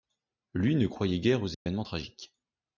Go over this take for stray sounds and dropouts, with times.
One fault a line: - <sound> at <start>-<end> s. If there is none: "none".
- dropout at 1.5-1.7 s